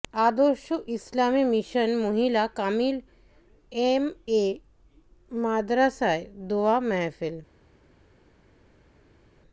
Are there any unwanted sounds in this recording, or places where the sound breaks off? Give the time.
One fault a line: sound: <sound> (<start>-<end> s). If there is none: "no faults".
no faults